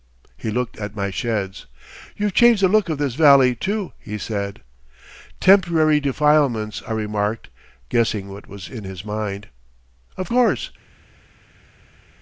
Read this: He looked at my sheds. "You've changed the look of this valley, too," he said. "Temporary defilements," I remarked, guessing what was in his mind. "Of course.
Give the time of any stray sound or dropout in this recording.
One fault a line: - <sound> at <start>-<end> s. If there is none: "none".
none